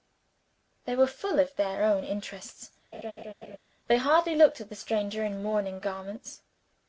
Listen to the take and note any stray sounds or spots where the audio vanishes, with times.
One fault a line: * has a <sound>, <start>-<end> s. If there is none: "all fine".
* has a laugh, 2.9-3.6 s